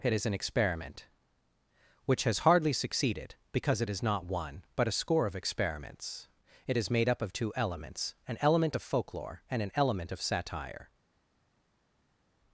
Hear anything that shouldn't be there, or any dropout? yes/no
no